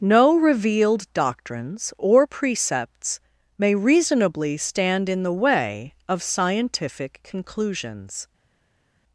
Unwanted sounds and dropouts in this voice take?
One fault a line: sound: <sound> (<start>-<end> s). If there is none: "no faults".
no faults